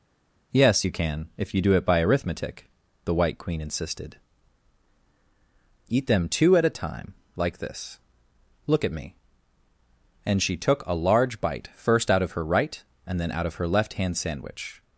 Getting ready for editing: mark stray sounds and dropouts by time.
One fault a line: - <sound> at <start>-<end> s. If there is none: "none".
none